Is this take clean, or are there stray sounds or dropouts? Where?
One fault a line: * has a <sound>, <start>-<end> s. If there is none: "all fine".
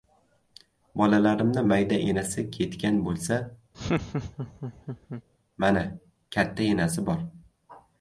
* has a laugh, 3.7-5.2 s